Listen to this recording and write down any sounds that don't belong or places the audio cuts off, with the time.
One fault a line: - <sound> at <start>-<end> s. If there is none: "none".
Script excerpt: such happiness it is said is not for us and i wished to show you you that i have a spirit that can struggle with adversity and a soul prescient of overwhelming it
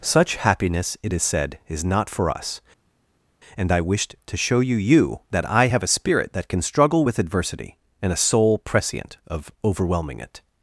none